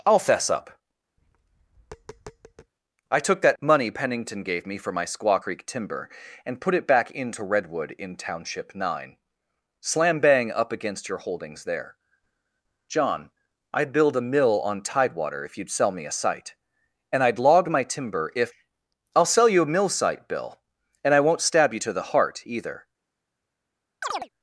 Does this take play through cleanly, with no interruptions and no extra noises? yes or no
no